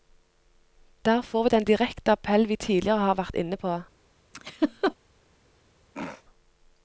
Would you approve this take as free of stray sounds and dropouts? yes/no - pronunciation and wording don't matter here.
no